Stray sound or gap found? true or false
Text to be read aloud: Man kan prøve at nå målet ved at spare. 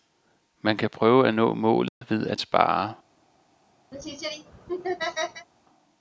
true